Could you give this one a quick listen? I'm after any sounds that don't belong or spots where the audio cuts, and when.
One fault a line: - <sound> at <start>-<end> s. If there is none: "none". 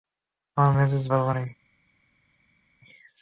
none